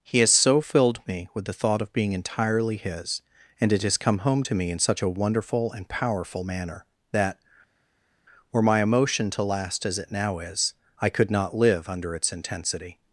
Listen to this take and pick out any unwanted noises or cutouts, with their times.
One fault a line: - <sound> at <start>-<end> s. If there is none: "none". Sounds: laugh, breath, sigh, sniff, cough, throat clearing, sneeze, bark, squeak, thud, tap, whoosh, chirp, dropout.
none